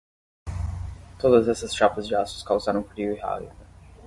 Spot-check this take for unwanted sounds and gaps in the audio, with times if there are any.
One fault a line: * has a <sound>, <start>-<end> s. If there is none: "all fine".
all fine